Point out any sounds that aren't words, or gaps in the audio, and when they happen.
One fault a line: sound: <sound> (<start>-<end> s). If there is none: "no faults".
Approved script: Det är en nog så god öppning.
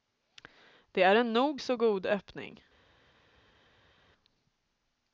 no faults